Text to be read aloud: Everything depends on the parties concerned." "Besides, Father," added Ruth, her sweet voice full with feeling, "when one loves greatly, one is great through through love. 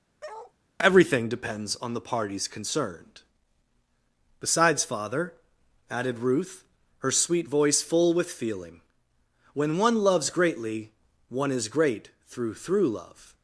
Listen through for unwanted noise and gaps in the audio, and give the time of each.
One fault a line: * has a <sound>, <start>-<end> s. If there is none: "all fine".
* has a bark, 0.2-0.5 s